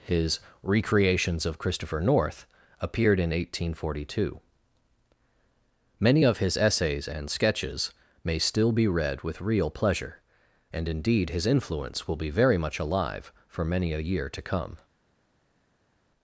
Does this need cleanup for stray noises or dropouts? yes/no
no